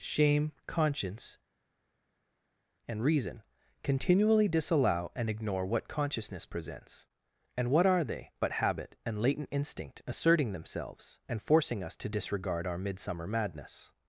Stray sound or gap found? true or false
false